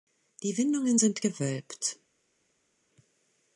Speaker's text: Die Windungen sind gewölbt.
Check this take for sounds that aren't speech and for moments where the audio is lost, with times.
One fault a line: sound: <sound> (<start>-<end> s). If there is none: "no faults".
no faults